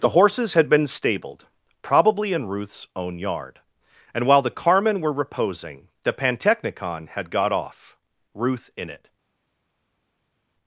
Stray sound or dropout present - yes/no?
no